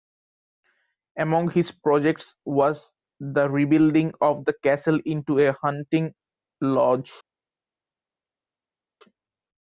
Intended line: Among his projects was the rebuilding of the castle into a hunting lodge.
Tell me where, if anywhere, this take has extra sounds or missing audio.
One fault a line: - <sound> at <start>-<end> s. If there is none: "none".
none